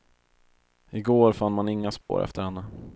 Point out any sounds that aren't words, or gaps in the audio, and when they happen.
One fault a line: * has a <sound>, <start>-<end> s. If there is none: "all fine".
* has a dropout, 2.0-2.1 s